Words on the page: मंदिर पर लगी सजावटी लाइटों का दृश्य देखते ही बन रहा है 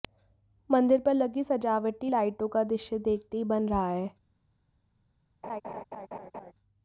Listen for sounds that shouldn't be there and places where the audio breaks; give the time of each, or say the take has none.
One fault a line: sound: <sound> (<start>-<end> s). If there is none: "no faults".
sound: laugh (5.4-6.5 s)